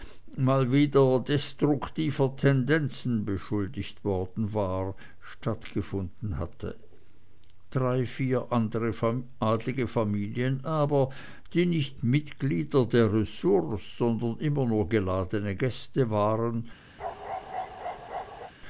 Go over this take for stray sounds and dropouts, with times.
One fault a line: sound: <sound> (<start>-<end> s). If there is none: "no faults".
sound: bark (17.0-18.5 s)